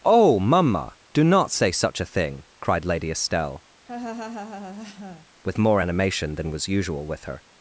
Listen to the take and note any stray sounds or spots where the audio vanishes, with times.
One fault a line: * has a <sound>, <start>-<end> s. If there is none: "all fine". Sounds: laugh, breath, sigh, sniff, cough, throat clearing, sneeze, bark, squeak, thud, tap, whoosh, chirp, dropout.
* has a laugh, 3.9-5.3 s